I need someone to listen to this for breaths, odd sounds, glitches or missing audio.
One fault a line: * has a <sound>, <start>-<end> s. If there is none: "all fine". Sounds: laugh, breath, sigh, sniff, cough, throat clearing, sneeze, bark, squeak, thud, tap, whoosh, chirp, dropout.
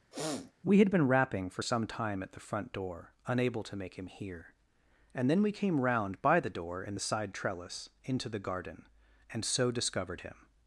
* has a sniff, 0.1-0.5 s